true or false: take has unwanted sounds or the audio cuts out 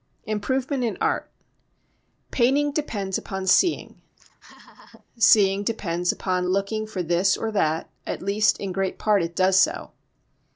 true